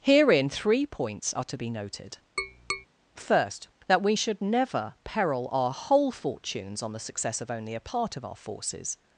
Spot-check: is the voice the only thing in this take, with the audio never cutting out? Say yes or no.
no